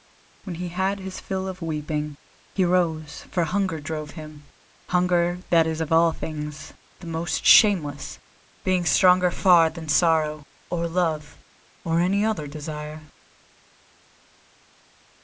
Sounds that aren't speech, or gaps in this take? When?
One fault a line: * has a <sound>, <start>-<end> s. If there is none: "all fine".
all fine